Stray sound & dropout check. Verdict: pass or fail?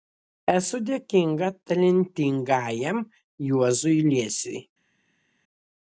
pass